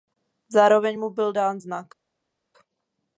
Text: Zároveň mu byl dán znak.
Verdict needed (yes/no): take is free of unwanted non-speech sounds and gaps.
yes